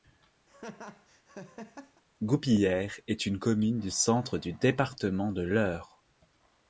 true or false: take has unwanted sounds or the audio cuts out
true